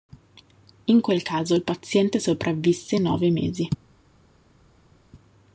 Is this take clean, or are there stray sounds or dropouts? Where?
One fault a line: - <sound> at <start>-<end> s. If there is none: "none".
none